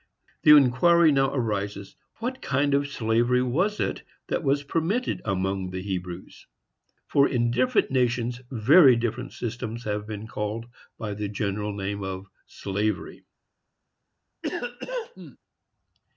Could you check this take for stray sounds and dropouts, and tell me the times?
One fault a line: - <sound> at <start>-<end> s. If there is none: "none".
- cough at 14.4-15.4 s